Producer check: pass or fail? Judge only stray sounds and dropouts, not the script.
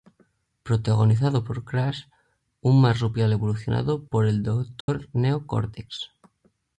fail